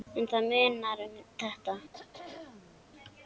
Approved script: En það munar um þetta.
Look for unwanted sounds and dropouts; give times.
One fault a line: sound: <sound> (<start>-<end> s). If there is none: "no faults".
sound: throat clearing (1.9-2.9 s)